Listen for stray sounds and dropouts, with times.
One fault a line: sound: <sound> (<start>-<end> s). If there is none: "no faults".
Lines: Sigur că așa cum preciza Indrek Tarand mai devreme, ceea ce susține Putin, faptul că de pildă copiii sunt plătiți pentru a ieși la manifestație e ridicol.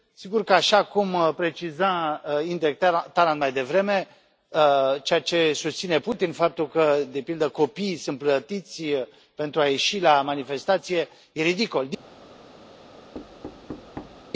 sound: thud (13.1-14.2 s)